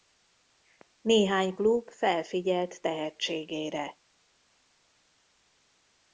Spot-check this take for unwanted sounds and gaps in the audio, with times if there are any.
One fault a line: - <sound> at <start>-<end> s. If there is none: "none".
none